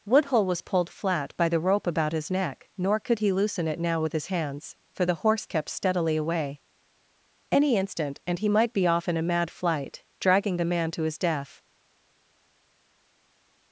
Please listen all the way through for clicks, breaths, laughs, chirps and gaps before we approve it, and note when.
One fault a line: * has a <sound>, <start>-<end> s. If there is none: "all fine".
all fine